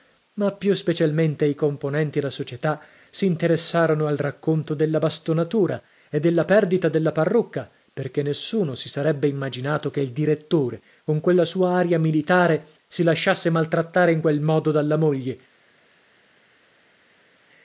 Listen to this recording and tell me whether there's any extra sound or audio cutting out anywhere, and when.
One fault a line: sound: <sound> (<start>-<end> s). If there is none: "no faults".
no faults